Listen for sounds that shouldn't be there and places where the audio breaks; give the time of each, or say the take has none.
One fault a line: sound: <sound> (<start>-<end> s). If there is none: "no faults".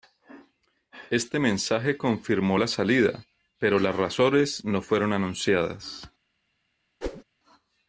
sound: whoosh (7.0-7.2 s)